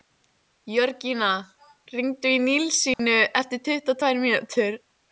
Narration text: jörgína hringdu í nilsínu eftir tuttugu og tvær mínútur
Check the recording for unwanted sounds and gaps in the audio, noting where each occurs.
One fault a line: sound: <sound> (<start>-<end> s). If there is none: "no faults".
sound: dropout (2.9-3.0 s)